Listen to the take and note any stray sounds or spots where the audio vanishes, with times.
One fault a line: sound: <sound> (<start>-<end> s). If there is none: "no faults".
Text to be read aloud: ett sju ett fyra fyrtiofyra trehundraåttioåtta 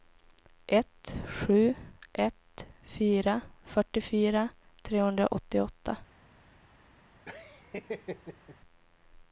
sound: laugh (7.3-8.6 s)